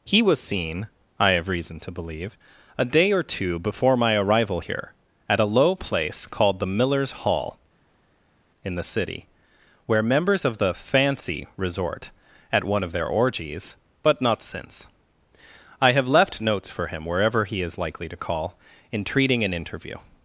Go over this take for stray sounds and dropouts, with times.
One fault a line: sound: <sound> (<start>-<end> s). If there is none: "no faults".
no faults